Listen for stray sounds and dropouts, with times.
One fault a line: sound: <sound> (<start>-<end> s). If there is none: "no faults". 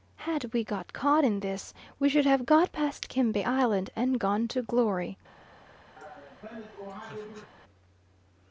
sound: laugh (6.0-7.5 s)